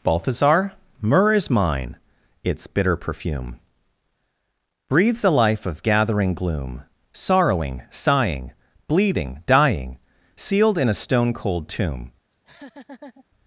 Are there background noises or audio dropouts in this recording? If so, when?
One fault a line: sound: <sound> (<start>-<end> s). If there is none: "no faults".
sound: laugh (12.3-13.2 s)